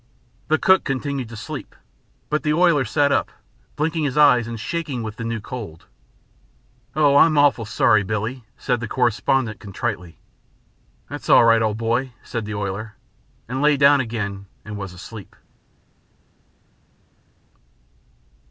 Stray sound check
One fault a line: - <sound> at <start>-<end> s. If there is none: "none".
none